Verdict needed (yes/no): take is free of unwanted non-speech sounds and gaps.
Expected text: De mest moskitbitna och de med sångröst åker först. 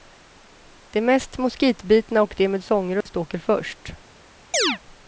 no